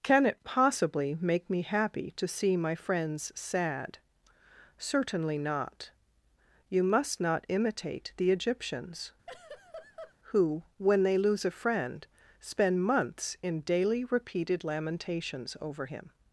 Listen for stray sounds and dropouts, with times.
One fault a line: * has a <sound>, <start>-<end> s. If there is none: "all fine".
* has a laugh, 9.3-10.2 s